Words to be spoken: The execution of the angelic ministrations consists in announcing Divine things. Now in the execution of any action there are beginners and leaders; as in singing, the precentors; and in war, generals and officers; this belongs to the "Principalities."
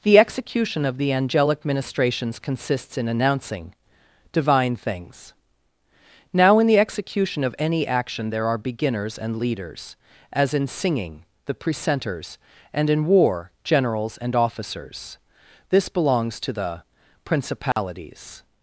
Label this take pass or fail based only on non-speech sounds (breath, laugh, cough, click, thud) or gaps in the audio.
fail